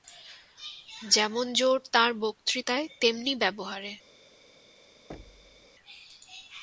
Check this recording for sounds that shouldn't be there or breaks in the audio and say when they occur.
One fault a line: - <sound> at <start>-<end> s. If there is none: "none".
- thud at 5.1-5.7 s